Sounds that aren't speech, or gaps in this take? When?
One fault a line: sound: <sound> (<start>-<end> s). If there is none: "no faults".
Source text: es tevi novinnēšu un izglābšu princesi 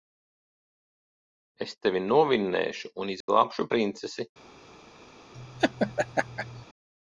sound: dropout (3.2-3.3 s)
sound: laugh (5.3-6.7 s)